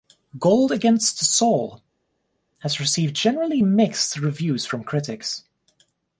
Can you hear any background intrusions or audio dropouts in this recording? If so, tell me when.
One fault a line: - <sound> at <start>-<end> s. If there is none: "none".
none